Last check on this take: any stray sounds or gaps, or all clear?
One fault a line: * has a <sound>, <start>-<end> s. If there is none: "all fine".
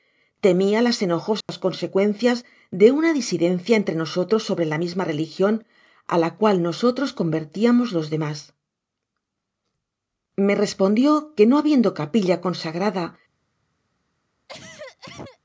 * has a dropout, 1.4-1.5 s
* has a cough, 14.5-15.4 s